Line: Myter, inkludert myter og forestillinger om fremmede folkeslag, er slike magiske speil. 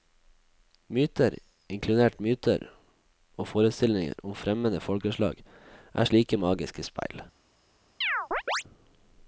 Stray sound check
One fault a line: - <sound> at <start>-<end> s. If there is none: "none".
- chirp at 8.0-8.6 s